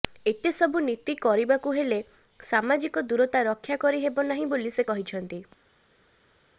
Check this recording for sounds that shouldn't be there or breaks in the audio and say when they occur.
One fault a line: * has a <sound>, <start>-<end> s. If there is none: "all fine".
all fine